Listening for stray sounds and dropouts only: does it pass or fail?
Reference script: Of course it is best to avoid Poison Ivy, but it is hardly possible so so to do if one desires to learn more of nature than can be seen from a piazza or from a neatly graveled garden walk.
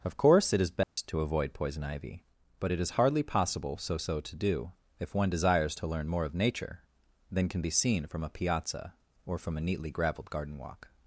fail